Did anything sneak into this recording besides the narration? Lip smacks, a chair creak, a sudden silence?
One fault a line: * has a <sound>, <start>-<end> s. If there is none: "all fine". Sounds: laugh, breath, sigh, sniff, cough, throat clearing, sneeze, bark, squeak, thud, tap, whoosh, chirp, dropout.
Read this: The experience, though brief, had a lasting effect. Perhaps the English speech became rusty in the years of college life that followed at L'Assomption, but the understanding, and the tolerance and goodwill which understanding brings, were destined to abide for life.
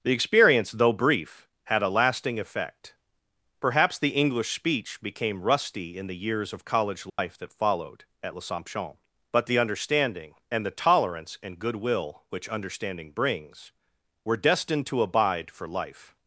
* has a dropout, 7.1-7.2 s